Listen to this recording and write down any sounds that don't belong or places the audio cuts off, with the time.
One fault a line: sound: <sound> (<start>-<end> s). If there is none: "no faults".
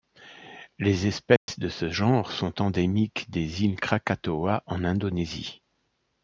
sound: dropout (1.4-1.5 s)